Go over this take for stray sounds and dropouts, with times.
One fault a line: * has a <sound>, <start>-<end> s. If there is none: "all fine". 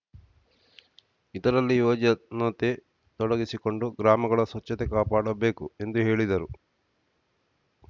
all fine